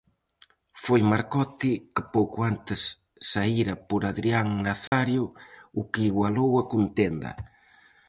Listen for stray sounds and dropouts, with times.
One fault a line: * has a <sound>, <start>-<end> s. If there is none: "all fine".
* has a dropout, 4.9-4.9 s